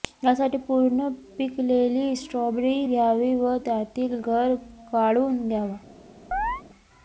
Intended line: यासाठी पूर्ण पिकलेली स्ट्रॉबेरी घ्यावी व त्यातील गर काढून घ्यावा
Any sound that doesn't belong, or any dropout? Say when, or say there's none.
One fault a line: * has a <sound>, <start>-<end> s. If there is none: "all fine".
* has a chirp, 6.3-6.6 s